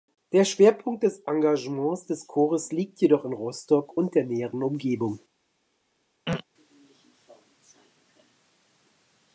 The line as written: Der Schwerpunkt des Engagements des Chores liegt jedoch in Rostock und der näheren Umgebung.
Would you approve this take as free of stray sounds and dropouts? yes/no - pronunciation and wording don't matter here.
no